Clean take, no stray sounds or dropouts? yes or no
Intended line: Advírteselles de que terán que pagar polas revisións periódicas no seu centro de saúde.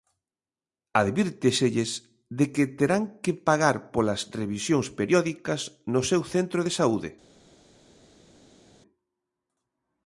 yes